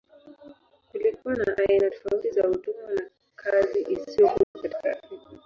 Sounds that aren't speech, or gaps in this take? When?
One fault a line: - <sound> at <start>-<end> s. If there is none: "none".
- dropout at 4.4-4.6 s